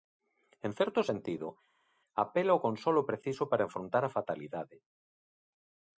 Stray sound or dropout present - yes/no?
no